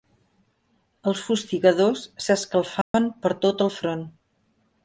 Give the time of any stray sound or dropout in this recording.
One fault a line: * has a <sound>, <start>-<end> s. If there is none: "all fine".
* has a dropout, 2.8-2.9 s